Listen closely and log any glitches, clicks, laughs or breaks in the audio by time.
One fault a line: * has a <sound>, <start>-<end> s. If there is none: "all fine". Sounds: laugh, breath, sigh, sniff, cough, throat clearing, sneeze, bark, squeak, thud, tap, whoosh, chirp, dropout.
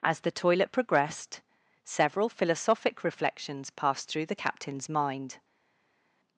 all fine